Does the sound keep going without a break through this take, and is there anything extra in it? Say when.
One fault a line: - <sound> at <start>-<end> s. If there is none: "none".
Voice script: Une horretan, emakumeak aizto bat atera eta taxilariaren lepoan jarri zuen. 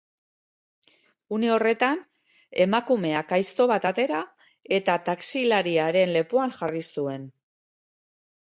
none